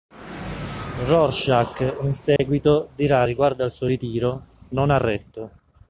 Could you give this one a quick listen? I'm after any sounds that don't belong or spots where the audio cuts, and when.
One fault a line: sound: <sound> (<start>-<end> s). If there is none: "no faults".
sound: dropout (2.4-2.4 s)